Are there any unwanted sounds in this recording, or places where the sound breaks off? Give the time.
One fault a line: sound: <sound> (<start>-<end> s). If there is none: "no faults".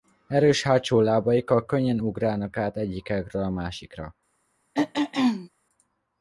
sound: throat clearing (4.7-5.5 s)